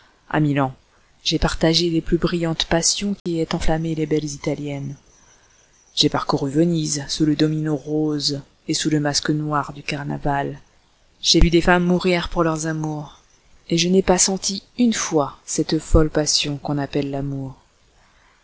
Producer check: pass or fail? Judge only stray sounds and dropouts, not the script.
fail